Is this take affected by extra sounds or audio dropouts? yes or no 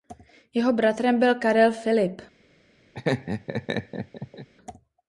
yes